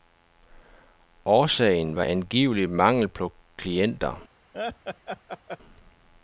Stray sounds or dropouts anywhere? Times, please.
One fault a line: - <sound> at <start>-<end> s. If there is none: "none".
- laugh at 4.5-5.6 s